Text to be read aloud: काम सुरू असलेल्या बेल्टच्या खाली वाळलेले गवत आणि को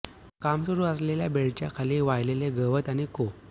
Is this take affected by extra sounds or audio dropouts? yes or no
no